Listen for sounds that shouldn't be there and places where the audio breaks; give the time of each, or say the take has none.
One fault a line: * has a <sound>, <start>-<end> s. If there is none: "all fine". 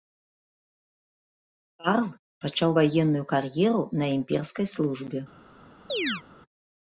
* has a chirp, 5.9-6.2 s